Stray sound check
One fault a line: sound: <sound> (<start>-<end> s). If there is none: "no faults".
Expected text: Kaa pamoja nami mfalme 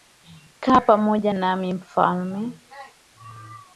no faults